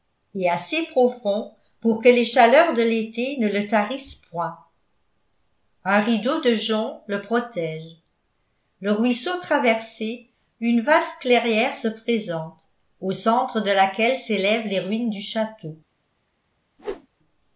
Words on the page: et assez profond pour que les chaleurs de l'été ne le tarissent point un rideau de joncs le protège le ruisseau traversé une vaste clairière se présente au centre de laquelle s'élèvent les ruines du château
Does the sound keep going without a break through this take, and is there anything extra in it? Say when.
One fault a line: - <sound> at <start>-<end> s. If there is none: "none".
- whoosh at 16.8-17.1 s